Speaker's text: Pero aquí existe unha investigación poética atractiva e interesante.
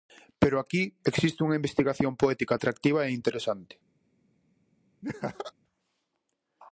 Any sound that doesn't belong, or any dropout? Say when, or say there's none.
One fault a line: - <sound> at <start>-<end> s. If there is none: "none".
- laugh at 5.0-5.5 s